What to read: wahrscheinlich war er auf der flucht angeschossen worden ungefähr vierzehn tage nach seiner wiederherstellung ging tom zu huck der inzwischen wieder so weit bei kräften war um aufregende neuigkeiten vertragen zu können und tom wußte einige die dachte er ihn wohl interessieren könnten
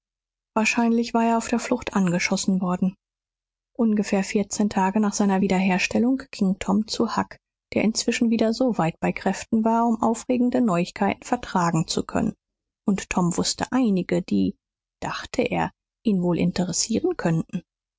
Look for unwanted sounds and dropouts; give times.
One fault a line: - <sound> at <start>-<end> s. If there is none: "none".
none